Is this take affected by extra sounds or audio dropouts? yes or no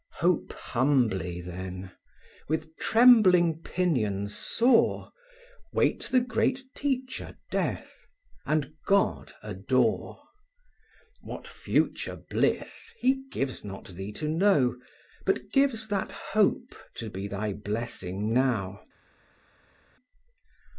no